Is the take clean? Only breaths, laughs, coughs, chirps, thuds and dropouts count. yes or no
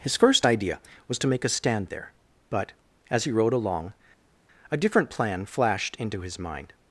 yes